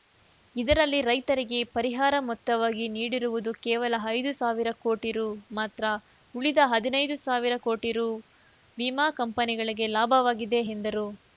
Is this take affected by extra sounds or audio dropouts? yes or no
no